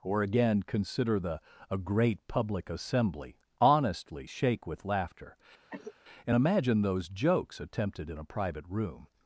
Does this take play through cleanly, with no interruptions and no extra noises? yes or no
no